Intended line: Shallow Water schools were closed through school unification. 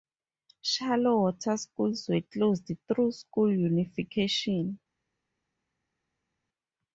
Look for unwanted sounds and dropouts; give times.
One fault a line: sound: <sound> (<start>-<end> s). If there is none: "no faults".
no faults